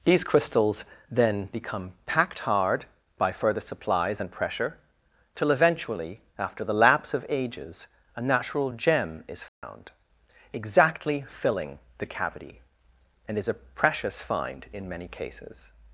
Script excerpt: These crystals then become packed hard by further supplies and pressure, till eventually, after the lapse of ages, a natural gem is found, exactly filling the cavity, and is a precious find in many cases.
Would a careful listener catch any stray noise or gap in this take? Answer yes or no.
yes